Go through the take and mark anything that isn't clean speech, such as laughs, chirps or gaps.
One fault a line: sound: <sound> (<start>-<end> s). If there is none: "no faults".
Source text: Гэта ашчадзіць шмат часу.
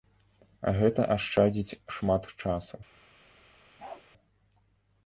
sound: bark (3.8-4.0 s)